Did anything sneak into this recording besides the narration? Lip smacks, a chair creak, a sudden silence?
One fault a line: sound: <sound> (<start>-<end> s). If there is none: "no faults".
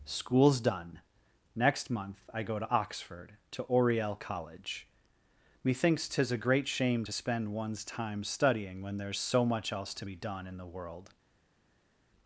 no faults